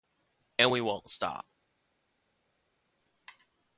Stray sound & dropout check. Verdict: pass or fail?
pass